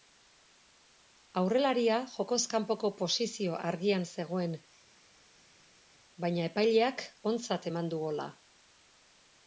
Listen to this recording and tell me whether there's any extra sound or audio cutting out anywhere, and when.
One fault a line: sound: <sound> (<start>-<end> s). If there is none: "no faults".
no faults